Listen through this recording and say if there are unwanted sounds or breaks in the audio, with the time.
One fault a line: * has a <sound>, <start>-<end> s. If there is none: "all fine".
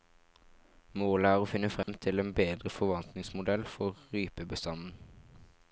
* has a dropout, 1.8-1.9 s